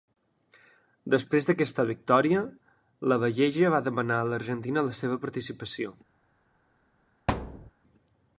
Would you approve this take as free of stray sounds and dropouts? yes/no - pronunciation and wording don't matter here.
no